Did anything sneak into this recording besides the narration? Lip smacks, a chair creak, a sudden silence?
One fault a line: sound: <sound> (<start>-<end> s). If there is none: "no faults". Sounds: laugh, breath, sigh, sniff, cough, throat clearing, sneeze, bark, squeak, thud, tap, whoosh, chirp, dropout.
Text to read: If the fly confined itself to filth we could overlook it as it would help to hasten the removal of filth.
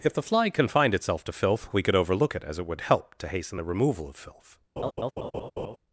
sound: laugh (4.8-5.8 s)